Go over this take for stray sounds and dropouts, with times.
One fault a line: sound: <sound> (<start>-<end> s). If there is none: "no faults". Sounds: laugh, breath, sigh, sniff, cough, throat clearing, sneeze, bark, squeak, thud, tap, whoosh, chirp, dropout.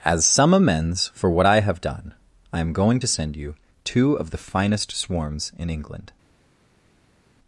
no faults